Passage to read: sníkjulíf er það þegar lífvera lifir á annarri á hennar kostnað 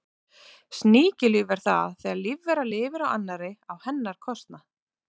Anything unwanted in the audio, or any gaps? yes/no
no